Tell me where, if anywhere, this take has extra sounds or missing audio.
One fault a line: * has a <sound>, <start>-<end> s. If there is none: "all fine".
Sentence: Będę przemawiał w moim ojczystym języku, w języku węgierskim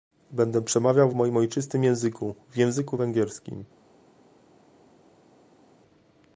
all fine